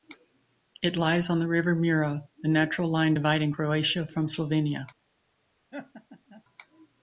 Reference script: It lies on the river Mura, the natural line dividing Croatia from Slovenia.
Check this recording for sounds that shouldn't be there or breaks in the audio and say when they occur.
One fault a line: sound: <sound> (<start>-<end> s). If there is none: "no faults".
sound: laugh (5.7-6.4 s)